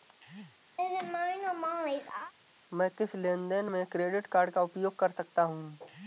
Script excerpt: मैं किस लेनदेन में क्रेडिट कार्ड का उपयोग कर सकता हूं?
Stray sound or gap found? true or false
true